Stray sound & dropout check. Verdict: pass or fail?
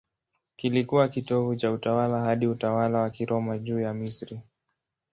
pass